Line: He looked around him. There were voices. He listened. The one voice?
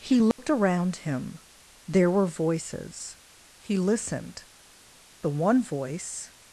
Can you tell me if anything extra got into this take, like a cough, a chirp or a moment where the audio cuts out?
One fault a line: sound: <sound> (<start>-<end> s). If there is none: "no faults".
sound: dropout (0.3-0.4 s)